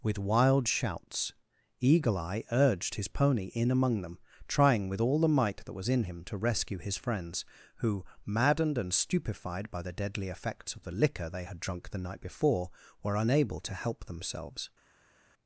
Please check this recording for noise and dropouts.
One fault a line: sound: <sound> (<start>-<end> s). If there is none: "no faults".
no faults